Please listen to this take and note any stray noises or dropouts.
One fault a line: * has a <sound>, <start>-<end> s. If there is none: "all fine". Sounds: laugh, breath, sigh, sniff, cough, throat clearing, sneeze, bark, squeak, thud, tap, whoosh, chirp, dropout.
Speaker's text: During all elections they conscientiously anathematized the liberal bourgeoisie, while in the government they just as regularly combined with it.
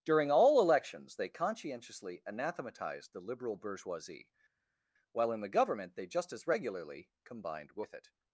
all fine